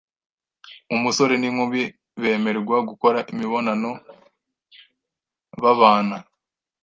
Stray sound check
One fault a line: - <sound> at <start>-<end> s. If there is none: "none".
none